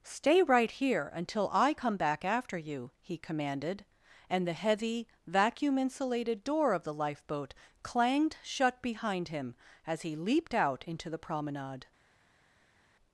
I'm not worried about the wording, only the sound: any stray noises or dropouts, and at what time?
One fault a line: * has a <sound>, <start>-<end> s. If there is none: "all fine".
all fine